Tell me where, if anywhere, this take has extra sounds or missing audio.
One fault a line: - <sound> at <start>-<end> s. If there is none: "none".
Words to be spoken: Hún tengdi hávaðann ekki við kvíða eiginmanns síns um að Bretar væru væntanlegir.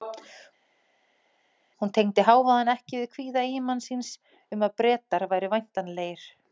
none